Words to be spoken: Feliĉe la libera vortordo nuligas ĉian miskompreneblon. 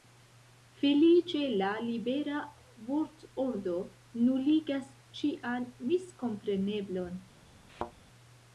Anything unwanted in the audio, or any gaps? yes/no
yes